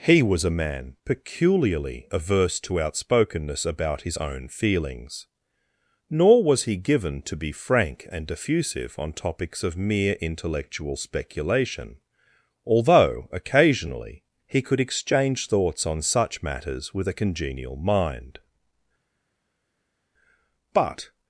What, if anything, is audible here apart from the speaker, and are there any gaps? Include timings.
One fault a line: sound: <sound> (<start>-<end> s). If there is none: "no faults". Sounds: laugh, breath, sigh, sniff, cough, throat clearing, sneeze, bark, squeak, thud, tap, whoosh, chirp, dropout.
no faults